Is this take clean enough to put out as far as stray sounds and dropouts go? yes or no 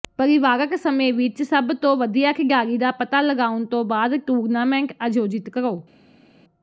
yes